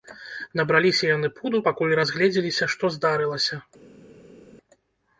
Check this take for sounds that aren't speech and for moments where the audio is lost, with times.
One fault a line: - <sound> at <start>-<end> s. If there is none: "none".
none